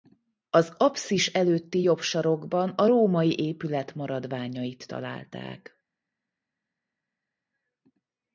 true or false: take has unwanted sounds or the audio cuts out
false